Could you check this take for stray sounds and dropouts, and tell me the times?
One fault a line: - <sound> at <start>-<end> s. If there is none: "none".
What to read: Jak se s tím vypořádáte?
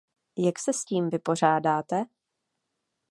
none